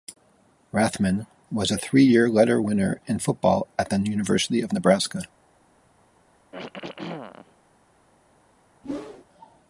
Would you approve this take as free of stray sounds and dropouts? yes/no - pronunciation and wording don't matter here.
no